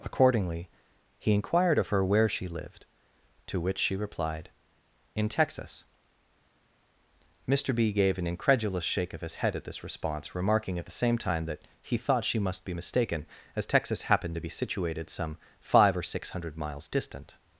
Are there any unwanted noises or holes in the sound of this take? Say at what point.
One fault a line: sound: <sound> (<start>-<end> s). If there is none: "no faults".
no faults